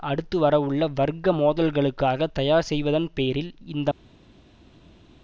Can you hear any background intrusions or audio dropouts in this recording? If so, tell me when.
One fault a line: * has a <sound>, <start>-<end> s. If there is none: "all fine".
all fine